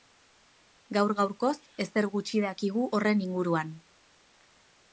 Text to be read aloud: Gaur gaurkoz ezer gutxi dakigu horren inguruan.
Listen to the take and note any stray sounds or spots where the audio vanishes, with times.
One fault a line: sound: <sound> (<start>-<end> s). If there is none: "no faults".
no faults